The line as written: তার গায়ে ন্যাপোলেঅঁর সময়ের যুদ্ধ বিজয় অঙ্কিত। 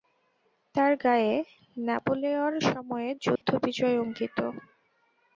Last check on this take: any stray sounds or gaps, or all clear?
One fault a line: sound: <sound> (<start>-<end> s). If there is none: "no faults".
sound: dropout (3.4-3.4 s)